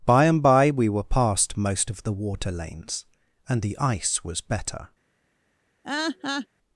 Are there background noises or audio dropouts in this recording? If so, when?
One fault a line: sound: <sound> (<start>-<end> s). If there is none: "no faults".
sound: laugh (5.8-6.5 s)